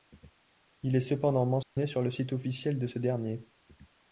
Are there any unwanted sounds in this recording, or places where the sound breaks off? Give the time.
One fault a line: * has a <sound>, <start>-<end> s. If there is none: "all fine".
* has a dropout, 1.6-1.8 s